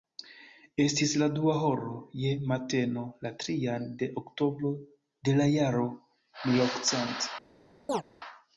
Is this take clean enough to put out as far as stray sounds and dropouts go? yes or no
no